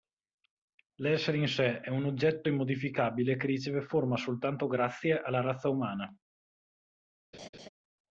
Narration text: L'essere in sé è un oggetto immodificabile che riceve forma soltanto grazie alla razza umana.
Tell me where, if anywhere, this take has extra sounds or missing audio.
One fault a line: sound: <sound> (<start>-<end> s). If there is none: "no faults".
sound: laugh (7.3-7.7 s)